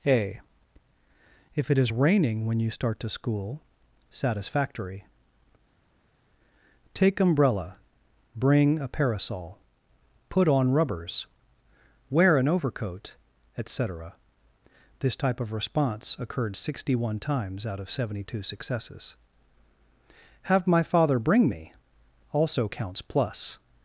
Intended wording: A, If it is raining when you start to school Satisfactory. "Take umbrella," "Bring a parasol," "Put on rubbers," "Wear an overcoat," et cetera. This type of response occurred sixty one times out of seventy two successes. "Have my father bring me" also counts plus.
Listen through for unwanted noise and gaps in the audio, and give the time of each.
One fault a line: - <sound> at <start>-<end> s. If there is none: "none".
none